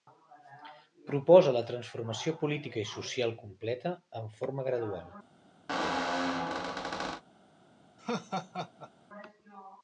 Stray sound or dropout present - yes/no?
yes